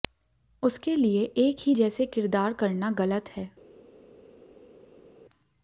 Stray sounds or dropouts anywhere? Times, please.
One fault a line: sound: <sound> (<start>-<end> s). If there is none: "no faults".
no faults